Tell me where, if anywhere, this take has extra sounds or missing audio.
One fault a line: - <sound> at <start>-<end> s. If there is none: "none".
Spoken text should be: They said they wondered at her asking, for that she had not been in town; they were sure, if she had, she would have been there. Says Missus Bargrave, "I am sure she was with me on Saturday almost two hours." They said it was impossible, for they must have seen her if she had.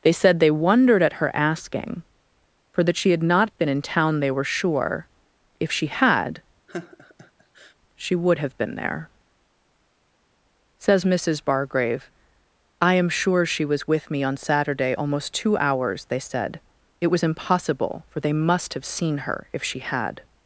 - laugh at 6.7-7.7 s